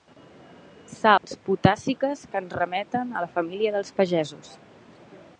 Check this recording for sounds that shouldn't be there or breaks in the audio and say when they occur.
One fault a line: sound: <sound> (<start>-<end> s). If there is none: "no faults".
sound: dropout (1.2-1.2 s)